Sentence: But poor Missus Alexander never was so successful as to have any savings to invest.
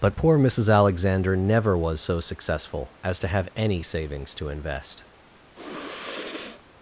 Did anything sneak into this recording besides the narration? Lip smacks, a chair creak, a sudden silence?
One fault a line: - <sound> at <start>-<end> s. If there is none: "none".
- sniff at 5.5-6.6 s